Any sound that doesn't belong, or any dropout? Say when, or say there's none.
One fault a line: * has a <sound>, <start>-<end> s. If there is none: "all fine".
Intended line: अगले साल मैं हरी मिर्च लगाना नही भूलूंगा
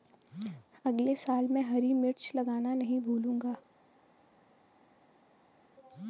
all fine